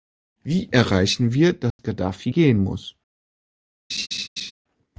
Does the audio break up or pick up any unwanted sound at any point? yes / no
yes